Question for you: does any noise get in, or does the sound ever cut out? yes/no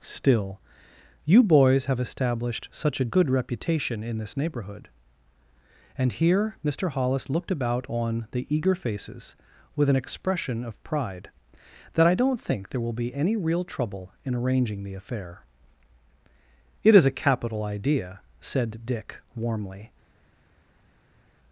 no